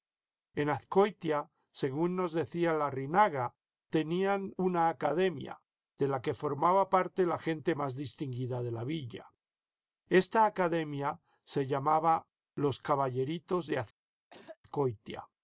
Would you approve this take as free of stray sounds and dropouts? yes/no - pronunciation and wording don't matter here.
no